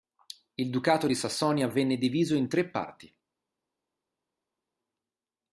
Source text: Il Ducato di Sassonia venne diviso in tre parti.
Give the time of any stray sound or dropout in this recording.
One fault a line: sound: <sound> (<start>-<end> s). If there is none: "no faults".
no faults